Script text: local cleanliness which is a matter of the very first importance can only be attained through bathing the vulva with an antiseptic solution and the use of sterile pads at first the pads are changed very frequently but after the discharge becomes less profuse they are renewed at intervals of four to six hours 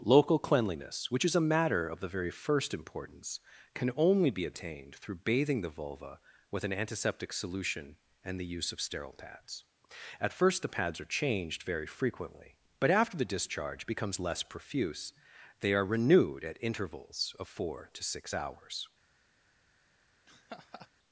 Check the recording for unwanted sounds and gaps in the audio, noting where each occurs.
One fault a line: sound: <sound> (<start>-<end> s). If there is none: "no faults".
sound: laugh (20.3-20.9 s)